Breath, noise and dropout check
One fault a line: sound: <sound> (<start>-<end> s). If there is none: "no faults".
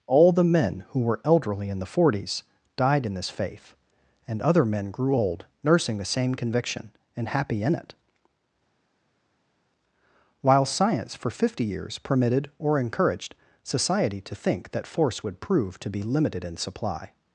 no faults